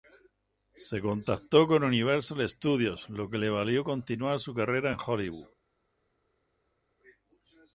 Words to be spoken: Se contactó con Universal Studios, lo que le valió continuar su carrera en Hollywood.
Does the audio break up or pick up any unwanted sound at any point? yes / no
no